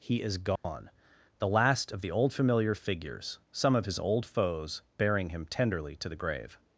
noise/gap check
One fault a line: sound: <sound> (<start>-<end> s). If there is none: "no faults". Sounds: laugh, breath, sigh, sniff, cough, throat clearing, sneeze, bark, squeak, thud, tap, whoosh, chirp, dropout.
sound: dropout (0.6-0.6 s)